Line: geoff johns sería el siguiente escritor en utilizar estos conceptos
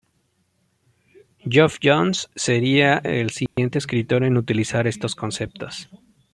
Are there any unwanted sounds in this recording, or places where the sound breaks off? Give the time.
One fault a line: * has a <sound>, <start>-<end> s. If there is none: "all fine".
* has a dropout, 3.5-3.6 s